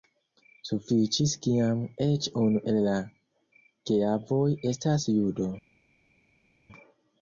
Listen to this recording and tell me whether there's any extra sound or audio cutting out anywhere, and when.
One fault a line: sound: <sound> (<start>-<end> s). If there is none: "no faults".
no faults